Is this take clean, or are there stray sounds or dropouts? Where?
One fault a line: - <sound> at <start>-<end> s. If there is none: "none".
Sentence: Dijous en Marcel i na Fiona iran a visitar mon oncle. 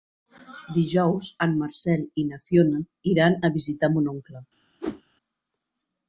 - whoosh at 4.8-5.0 s